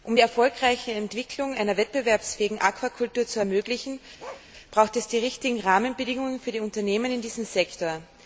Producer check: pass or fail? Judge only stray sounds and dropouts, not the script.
fail